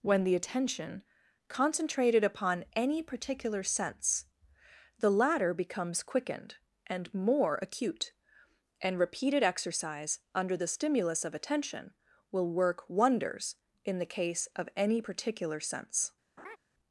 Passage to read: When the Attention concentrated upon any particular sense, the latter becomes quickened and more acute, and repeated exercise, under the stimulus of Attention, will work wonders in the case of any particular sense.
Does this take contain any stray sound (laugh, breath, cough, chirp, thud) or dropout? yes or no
yes